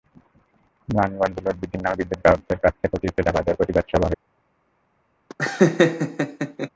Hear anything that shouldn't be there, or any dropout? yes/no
yes